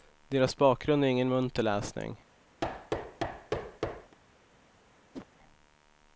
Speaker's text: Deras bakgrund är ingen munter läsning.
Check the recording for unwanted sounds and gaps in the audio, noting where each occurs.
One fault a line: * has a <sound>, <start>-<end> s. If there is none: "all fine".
* has a thud, 2.6-4.2 s
* has a whoosh, 5.1-5.3 s